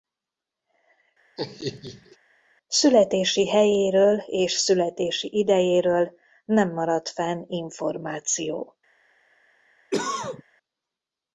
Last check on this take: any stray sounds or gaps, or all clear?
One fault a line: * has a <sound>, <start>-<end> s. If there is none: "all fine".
* has a laugh, 1.4-2.2 s
* has a cough, 9.9-10.4 s